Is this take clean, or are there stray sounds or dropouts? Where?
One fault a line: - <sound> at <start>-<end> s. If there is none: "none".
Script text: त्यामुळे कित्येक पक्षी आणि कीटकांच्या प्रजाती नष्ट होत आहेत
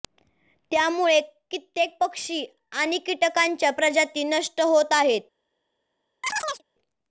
- chirp at 6.2-6.6 s